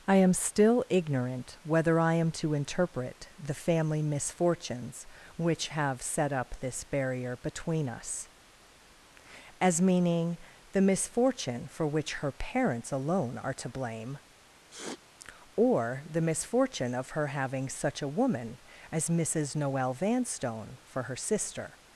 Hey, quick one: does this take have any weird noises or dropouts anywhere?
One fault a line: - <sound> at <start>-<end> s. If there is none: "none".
- sniff at 14.7-15.0 s